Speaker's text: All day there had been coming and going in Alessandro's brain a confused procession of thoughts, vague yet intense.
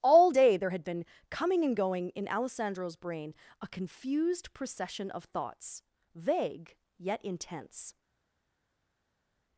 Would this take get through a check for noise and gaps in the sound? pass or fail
pass